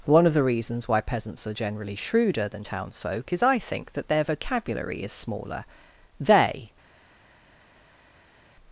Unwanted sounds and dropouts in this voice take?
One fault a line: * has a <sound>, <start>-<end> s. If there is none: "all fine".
all fine